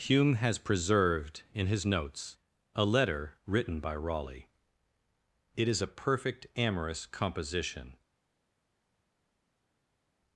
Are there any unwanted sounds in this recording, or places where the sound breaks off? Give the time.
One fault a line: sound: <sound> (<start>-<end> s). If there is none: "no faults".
no faults